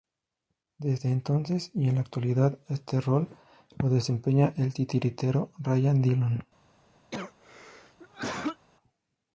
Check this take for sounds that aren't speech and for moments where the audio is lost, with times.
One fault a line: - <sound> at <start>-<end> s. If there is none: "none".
- cough at 7.1-8.7 s